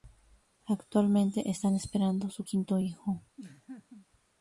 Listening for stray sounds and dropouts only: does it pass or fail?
fail